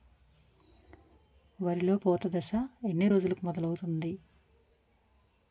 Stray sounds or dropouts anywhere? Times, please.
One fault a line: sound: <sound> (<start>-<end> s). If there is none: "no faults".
no faults